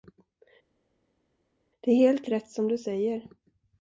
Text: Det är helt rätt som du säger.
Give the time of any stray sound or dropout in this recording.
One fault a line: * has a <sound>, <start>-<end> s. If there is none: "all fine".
all fine